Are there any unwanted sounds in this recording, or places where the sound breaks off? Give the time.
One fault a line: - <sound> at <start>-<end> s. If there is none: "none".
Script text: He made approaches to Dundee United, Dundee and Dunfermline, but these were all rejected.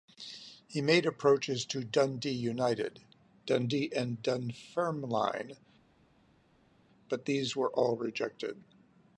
none